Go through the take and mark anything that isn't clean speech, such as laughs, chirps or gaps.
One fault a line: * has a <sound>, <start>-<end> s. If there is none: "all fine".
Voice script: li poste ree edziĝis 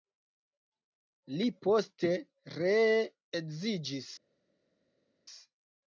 all fine